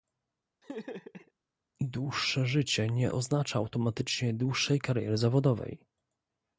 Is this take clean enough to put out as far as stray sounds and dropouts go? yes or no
no